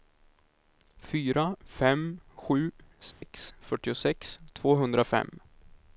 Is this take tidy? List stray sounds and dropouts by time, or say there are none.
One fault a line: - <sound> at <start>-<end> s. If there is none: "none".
- dropout at 3.1-3.2 s